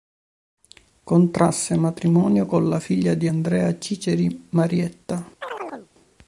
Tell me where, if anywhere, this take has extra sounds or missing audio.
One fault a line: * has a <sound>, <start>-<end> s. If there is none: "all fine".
* has a chirp, 5.4-5.9 s